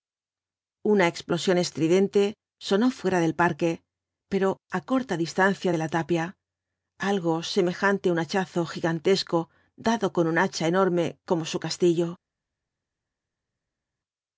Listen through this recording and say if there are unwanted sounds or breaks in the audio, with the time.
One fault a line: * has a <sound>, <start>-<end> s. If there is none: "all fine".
all fine